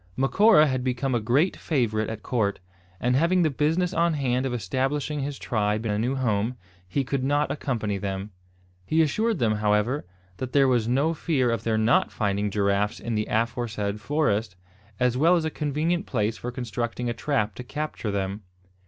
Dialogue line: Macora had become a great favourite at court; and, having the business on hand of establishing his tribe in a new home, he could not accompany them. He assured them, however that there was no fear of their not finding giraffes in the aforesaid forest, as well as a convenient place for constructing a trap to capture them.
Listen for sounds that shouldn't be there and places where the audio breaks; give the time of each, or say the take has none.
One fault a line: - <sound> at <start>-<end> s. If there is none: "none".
none